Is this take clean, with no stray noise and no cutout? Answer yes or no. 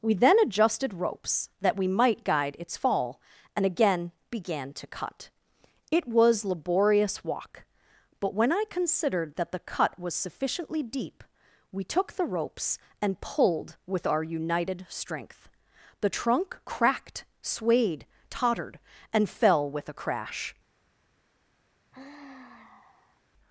no